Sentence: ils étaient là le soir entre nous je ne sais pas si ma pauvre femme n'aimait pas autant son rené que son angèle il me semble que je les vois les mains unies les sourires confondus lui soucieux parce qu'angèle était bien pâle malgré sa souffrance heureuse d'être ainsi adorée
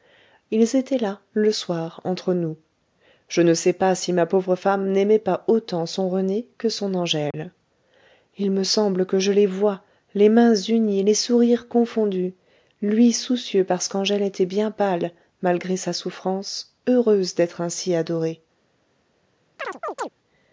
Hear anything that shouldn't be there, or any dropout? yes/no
yes